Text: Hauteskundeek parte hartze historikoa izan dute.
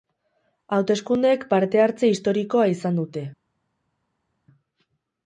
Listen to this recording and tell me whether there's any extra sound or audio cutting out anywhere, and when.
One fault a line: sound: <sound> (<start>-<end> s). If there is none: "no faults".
no faults